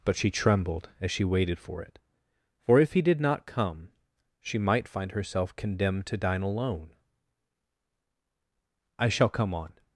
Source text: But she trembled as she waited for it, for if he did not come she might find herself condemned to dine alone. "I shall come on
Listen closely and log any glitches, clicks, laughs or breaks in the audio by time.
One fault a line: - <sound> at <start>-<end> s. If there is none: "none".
none